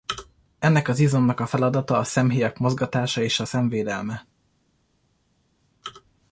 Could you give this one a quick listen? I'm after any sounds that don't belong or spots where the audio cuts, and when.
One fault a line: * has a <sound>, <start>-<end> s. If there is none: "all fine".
all fine